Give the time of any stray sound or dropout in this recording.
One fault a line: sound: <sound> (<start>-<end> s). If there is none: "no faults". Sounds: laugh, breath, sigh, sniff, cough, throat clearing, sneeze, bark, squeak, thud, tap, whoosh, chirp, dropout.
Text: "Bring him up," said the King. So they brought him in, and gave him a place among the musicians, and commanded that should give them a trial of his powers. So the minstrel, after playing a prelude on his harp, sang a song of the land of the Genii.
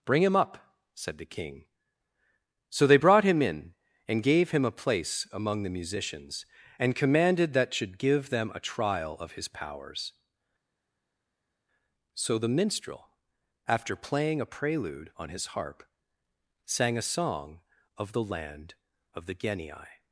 no faults